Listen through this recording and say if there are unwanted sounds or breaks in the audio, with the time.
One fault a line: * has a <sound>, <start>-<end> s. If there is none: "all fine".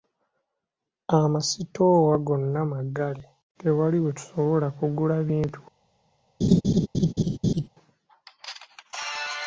* has a laugh, 6.4-7.7 s